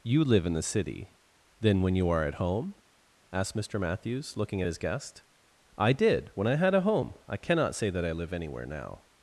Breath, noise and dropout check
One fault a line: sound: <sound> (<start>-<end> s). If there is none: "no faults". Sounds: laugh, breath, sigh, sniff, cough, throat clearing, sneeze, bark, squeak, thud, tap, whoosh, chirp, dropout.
no faults